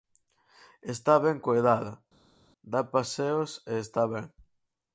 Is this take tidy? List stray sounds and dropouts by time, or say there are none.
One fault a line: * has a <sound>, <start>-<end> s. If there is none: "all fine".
all fine